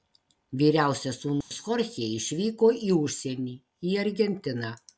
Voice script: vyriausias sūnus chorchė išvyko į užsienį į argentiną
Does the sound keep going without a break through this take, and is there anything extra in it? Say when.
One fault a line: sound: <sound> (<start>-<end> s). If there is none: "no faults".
sound: dropout (1.4-1.5 s)